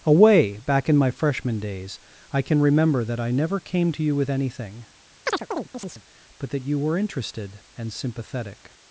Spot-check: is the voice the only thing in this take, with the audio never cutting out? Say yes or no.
no